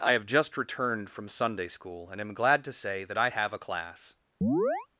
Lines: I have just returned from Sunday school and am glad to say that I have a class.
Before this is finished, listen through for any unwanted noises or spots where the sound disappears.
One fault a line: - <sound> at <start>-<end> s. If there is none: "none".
- chirp at 4.4-4.9 s